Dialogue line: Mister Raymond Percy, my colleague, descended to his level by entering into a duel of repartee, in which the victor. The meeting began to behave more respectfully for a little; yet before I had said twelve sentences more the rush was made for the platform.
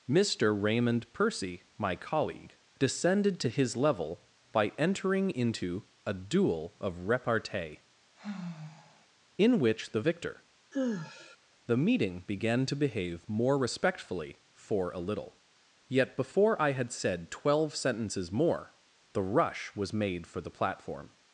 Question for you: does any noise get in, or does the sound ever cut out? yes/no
yes